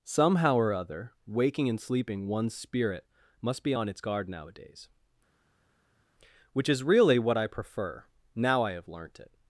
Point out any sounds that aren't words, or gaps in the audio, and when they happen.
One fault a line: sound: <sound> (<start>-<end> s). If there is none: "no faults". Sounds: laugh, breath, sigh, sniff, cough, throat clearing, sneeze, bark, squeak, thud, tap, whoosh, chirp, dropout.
no faults